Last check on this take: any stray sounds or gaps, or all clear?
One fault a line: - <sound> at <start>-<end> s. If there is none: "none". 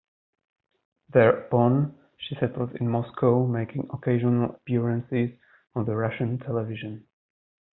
none